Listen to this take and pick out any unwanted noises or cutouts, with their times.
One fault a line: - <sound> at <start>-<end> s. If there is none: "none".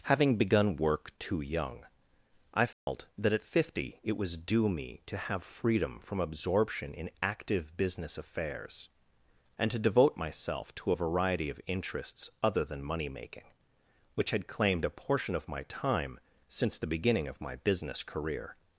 - dropout at 2.7-2.9 s